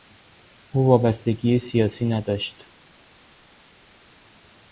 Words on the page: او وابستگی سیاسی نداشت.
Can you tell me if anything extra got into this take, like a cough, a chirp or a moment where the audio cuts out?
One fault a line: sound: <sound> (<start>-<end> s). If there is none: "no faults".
no faults